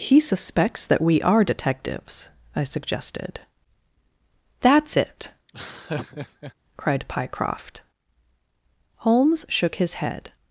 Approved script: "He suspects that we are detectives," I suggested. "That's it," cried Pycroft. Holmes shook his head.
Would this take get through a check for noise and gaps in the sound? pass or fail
fail